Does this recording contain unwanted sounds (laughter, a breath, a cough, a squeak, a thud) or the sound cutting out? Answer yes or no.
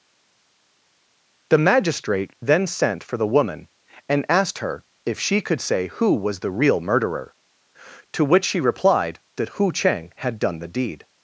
no